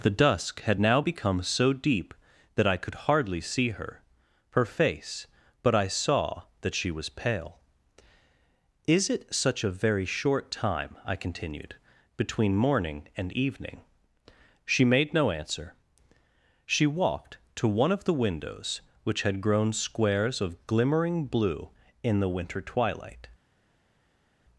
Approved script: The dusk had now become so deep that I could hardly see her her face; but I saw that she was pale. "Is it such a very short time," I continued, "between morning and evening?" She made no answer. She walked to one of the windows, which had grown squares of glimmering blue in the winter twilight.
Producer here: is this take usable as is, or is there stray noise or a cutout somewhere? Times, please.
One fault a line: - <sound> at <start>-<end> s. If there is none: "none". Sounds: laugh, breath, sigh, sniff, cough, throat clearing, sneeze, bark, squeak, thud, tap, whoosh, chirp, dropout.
none